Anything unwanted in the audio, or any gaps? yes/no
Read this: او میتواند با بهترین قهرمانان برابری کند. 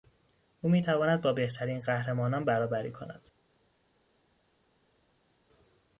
no